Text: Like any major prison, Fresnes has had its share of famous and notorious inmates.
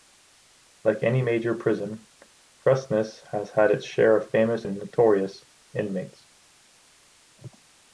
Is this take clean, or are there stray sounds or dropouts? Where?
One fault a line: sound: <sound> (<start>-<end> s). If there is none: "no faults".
no faults